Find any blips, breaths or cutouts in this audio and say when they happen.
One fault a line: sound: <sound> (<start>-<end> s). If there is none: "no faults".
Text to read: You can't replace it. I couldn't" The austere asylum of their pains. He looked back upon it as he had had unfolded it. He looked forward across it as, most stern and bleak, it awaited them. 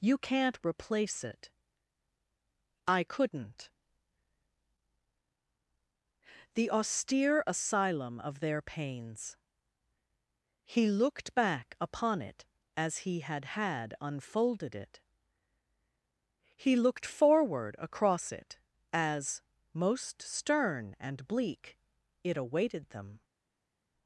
no faults